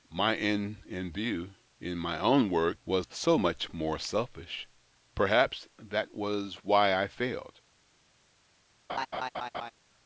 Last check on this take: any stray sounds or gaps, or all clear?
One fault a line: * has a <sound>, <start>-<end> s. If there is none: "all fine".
* has a laugh, 8.9-9.7 s